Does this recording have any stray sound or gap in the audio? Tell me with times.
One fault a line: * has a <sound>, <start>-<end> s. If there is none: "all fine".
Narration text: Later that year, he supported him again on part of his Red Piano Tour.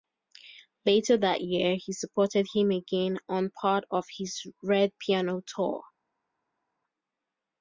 all fine